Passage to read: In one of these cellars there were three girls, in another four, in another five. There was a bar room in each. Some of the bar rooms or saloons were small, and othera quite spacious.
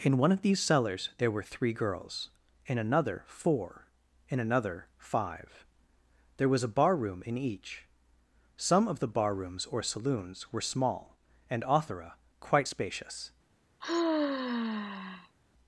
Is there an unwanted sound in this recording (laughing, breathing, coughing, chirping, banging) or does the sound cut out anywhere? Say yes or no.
yes